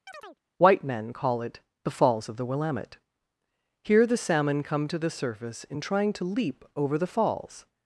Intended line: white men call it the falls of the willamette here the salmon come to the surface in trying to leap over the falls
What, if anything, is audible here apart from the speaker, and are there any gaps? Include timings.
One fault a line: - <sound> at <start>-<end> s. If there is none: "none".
- chirp at 0.1-0.4 s